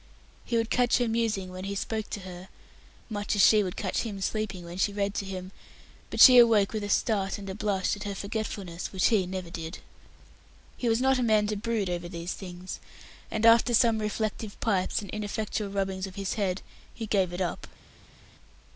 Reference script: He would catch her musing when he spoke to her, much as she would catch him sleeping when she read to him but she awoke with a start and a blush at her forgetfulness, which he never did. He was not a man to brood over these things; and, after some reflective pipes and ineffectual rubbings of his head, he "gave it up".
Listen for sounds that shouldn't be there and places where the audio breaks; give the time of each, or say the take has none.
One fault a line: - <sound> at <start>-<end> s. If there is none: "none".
none